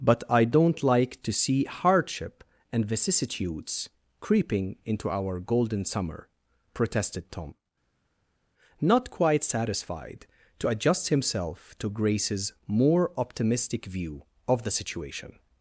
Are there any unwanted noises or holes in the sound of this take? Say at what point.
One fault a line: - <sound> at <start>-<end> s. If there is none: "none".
none